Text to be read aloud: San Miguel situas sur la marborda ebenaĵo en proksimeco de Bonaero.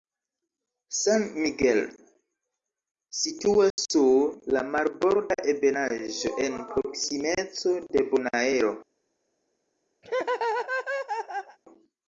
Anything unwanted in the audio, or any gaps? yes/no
yes